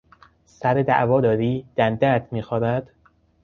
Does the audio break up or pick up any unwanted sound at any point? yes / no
no